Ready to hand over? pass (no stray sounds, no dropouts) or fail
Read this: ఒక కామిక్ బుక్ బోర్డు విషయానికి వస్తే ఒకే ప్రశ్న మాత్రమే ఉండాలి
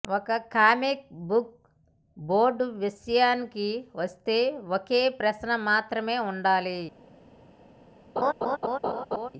fail